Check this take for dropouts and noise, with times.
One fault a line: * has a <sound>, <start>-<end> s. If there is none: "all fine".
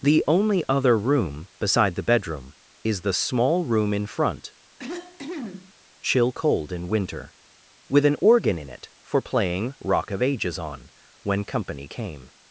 * has a cough, 4.8-5.7 s